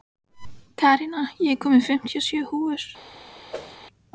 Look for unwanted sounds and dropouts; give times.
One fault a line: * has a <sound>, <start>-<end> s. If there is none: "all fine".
* has a whoosh, 3.5-3.8 s